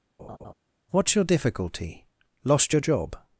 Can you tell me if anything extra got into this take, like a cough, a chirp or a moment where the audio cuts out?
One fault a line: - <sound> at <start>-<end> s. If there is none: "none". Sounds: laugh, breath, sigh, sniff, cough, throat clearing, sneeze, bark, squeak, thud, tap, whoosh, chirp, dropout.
- laugh at 0.2-0.5 s